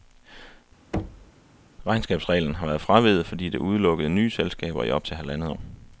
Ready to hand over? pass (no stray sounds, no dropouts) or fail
fail